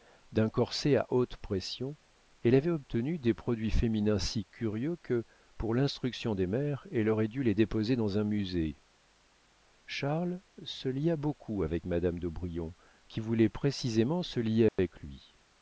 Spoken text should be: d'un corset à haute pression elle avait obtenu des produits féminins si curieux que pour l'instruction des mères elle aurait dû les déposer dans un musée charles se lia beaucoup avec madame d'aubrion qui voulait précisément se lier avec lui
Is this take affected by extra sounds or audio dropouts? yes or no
yes